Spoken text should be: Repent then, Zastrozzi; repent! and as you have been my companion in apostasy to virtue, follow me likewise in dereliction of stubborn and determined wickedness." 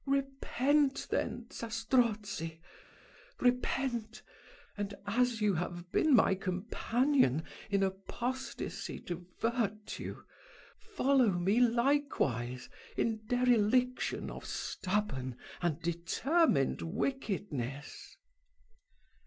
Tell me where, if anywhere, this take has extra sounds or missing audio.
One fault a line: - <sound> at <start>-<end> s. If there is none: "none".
none